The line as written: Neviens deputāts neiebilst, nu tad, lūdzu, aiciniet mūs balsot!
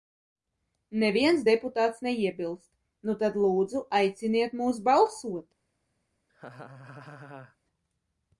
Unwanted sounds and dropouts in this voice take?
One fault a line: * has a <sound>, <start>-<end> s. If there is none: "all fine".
* has a laugh, 6.3-7.6 s